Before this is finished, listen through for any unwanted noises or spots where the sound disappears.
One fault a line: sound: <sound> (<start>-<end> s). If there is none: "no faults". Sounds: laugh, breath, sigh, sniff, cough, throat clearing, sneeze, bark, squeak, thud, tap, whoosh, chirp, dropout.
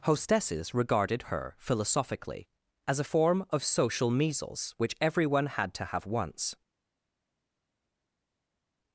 no faults